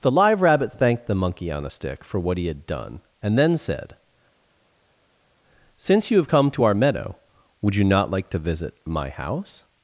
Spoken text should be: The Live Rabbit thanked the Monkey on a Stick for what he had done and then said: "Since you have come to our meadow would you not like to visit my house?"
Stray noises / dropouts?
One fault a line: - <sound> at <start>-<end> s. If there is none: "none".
none